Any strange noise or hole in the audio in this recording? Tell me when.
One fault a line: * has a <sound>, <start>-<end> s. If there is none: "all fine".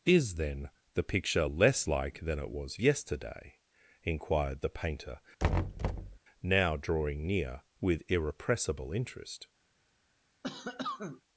* has a thud, 5.4-6.2 s
* has a cough, 10.4-11.2 s